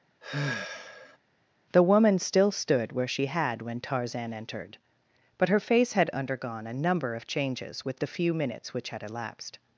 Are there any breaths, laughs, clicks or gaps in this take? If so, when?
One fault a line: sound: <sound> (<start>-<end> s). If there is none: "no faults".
sound: sigh (0.2-1.2 s)